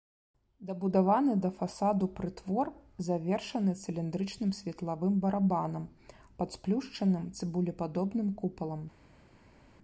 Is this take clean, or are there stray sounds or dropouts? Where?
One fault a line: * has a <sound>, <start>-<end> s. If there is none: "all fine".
all fine